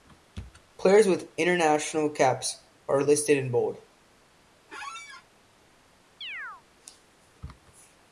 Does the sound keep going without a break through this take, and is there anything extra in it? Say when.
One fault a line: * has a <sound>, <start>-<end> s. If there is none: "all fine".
* has a squeak, 4.7-5.2 s
* has a chirp, 6.2-6.6 s